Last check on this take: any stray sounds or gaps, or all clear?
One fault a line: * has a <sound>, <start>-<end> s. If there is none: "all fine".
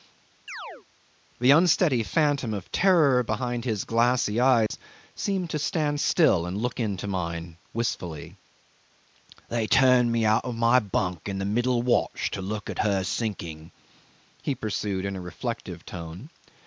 * has a chirp, 0.5-0.9 s
* has a dropout, 4.7-4.7 s